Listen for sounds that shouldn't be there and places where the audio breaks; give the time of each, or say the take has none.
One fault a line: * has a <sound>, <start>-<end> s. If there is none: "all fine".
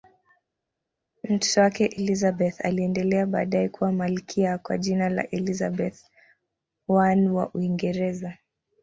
all fine